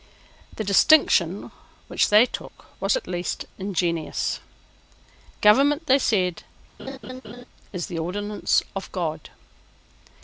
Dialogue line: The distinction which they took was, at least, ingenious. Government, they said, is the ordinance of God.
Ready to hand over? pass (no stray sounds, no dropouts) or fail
fail